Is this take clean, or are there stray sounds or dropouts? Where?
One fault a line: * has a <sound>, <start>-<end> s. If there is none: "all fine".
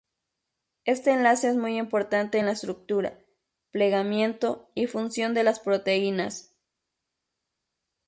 all fine